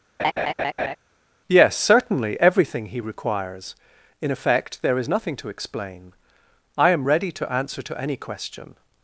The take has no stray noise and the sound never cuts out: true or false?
false